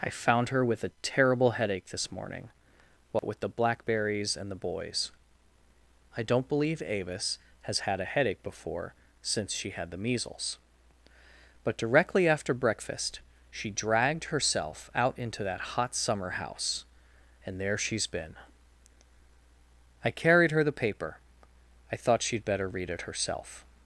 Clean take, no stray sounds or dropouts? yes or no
no